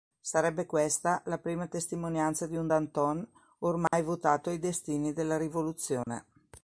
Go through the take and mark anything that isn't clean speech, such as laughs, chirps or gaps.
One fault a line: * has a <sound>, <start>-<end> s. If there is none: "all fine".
* has a dropout, 3.9-3.9 s
* has a dropout, 6.0-6.1 s